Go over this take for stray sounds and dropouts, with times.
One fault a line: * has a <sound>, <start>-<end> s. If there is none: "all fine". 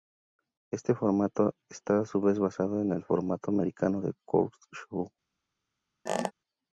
* has a squeak, 6.1-6.3 s